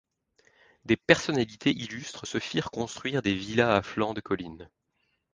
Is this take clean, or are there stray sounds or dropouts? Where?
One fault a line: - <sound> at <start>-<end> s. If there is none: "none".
none